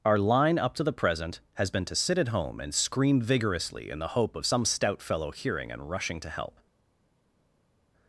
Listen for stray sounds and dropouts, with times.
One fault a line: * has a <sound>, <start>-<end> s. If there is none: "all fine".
all fine